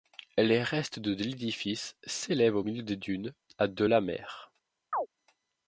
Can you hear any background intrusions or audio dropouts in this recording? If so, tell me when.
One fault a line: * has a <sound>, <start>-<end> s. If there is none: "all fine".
* has a chirp, 4.9-5.1 s